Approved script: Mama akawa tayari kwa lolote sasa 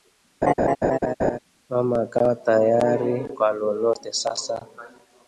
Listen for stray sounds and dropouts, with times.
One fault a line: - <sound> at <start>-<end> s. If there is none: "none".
- laugh at 0.4-1.4 s